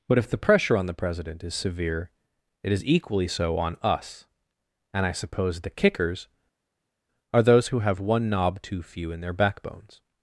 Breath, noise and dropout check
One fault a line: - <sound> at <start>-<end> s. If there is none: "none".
none